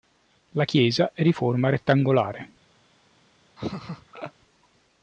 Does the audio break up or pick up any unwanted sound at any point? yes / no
yes